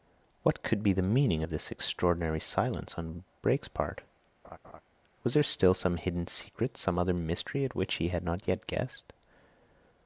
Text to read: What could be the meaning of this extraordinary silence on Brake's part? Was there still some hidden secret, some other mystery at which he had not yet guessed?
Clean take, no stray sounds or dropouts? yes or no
no